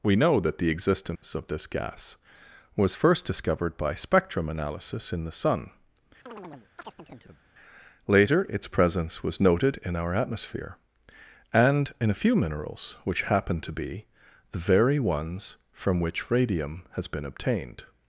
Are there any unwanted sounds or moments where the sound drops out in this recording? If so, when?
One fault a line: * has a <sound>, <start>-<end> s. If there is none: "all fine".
* has a dropout, 1.2-1.2 s
* has a chirp, 6.3-7.4 s